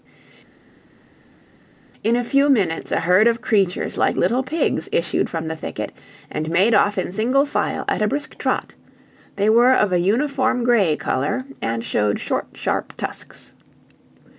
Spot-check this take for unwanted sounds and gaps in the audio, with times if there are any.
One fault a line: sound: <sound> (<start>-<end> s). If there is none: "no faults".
no faults